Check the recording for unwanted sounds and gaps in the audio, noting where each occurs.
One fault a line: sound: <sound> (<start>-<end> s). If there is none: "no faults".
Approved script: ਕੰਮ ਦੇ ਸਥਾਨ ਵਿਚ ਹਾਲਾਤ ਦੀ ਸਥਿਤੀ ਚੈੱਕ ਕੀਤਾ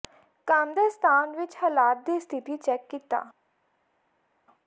no faults